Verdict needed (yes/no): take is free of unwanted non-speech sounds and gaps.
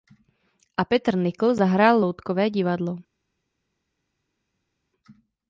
yes